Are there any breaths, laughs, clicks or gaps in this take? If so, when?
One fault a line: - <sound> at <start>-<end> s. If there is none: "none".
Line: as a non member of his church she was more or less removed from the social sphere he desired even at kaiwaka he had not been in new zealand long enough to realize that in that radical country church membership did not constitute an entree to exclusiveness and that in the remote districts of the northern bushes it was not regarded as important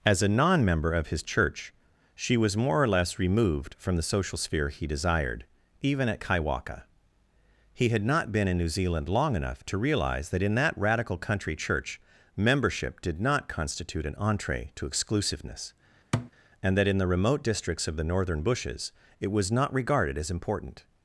- thud at 16.1-16.3 s